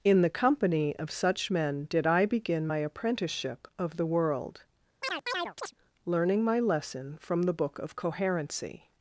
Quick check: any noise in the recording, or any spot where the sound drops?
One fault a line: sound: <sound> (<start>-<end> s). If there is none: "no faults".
sound: chirp (5.0-5.7 s)